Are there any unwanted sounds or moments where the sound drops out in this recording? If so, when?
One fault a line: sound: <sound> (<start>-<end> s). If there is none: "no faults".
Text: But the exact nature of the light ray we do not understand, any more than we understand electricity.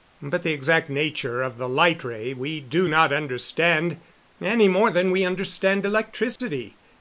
sound: dropout (6.4-6.4 s)